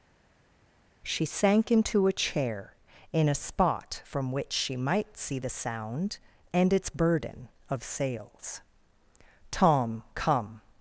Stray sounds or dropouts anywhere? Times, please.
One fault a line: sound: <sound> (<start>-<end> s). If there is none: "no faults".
no faults